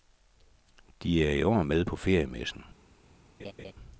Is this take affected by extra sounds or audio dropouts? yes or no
yes